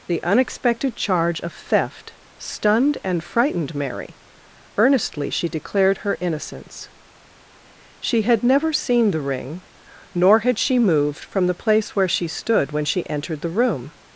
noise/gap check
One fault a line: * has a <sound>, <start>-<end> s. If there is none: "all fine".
all fine